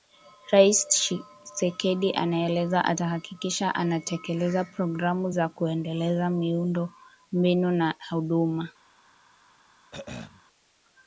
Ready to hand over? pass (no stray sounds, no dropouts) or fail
fail